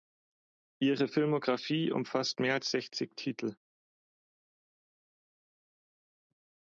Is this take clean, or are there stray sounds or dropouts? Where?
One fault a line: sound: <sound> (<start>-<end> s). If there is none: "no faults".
no faults